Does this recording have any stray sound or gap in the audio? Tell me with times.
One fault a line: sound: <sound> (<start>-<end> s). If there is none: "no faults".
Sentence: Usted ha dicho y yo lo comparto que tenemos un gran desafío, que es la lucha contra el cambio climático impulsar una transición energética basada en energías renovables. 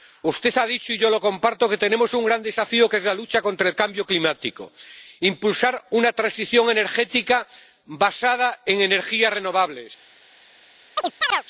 sound: chirp (11.0-11.4 s)